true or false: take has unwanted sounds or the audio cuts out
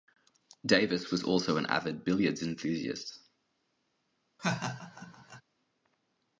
true